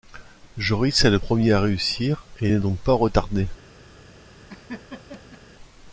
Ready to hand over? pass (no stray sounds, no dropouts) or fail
fail